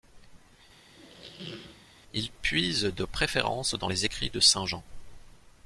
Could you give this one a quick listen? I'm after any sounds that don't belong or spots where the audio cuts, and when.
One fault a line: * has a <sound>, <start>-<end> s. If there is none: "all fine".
* has a squeak, 0.9-1.9 s